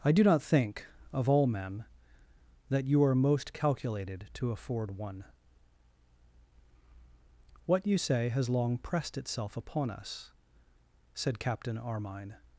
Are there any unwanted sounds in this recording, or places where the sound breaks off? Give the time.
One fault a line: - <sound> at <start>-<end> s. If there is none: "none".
none